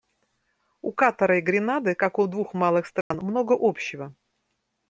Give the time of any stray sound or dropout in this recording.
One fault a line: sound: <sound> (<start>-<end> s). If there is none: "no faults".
sound: dropout (3.0-3.1 s)